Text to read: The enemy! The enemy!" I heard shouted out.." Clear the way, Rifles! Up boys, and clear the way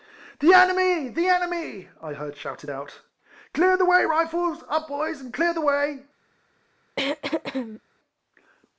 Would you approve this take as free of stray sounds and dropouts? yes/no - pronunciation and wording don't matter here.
no